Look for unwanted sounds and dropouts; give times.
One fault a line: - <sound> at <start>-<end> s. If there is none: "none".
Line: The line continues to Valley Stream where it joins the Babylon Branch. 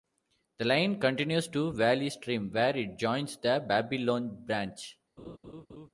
- laugh at 5.2-5.9 s